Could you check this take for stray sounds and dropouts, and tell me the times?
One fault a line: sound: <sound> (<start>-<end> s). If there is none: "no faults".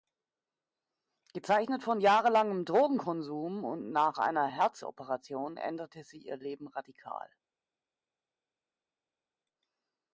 no faults